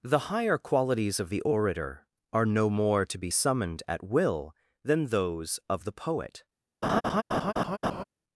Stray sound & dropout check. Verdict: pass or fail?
fail